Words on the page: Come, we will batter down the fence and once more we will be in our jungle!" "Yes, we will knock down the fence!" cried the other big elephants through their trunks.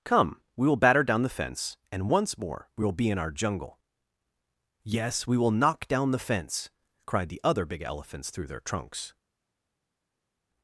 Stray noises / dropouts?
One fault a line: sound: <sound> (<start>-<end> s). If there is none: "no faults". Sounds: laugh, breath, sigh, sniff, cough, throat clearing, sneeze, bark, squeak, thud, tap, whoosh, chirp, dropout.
no faults